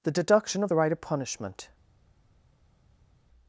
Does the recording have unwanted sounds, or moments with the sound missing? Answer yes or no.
no